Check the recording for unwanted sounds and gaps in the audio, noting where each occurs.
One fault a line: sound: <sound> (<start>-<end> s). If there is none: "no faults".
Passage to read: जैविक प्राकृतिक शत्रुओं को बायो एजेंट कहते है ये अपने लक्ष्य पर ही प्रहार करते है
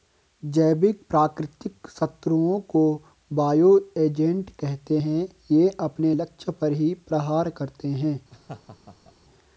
sound: laugh (8.3-9.1 s)